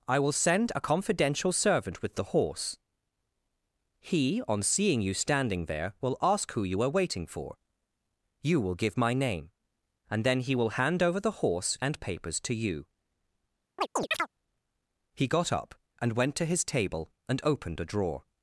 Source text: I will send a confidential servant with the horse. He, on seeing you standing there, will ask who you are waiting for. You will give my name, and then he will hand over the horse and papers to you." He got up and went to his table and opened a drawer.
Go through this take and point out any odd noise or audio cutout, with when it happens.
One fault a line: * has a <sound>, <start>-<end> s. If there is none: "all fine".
* has a chirp, 13.8-14.3 s